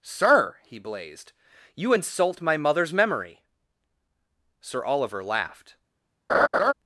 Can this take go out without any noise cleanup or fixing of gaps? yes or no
no